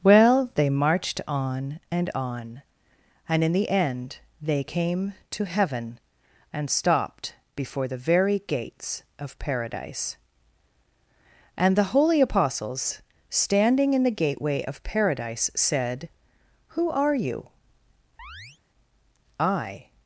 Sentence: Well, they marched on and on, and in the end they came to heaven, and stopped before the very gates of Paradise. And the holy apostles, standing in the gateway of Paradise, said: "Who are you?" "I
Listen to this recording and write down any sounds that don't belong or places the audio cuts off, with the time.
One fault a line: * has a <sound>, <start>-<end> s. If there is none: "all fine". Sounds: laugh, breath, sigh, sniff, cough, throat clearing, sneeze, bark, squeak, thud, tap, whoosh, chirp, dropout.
* has a chirp, 18.2-18.6 s